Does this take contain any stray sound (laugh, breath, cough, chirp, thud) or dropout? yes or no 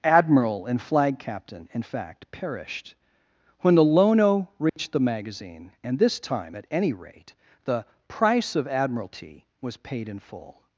yes